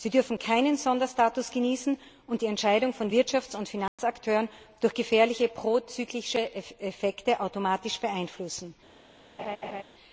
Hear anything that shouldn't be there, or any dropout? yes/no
yes